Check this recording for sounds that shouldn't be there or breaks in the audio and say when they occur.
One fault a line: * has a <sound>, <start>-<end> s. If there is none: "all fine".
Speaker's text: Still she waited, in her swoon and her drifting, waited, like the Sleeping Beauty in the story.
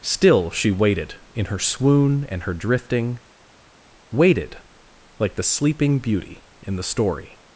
all fine